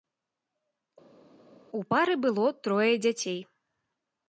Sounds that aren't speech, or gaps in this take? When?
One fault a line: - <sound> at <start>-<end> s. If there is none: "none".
none